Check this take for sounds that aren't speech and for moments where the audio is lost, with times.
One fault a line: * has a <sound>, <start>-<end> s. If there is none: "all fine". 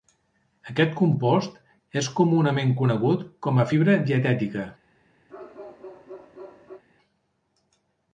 * has a bark, 5.3-6.8 s